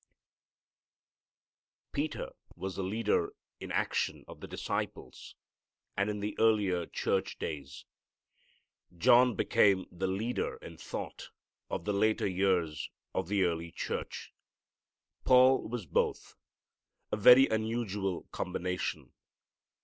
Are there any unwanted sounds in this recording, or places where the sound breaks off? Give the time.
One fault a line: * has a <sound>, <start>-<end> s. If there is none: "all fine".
all fine